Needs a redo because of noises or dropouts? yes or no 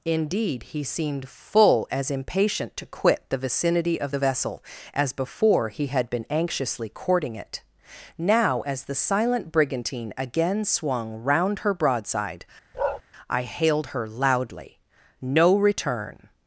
yes